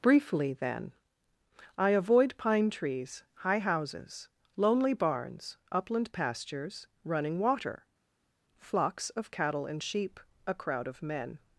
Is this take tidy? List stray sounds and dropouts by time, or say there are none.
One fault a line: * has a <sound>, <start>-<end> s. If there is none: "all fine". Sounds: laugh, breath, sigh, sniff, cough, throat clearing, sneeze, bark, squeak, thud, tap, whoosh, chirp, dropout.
all fine